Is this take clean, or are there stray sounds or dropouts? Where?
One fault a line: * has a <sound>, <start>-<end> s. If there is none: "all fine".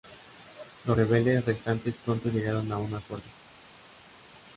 all fine